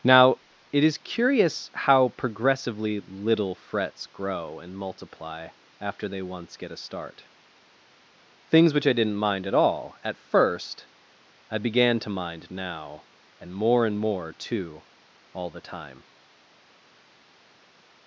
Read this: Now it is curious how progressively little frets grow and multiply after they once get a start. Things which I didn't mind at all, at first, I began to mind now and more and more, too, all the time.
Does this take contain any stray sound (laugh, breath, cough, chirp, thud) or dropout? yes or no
no